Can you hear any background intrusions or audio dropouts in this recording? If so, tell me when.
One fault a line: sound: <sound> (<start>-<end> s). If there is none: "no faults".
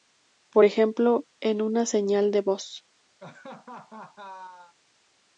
sound: laugh (3.2-4.7 s)